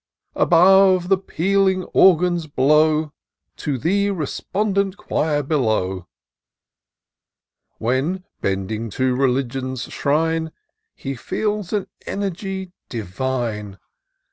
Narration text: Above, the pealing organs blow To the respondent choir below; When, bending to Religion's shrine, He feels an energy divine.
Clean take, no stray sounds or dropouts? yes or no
yes